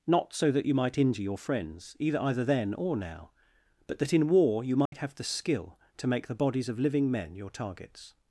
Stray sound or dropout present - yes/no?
yes